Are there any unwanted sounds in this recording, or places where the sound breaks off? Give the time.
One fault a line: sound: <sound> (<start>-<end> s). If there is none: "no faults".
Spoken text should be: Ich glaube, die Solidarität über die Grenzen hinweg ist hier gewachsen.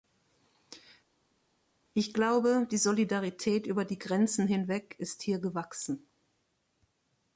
no faults